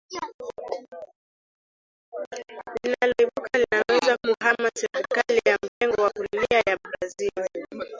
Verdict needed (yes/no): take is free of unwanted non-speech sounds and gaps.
no